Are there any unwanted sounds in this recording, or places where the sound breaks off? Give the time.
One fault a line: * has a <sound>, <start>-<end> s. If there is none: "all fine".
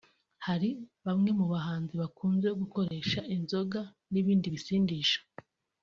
* has a dropout, 2.9-2.9 s